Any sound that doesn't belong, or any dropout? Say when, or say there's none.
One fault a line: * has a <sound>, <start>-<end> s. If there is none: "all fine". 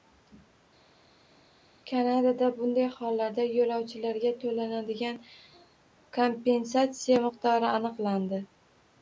all fine